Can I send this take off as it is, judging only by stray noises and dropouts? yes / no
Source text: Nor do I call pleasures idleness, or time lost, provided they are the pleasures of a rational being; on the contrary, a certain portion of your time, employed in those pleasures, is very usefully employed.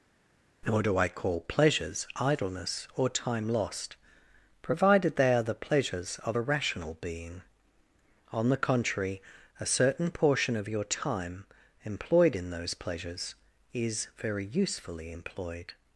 yes